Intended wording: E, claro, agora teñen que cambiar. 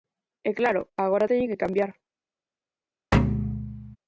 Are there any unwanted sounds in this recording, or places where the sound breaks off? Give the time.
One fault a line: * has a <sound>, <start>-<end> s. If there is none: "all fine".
* has a thud, 3.1-4.0 s